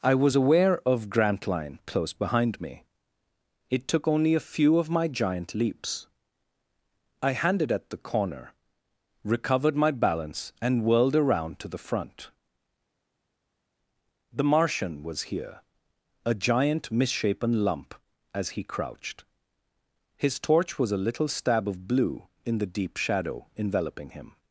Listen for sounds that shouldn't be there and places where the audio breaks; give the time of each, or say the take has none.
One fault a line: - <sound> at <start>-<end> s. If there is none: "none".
none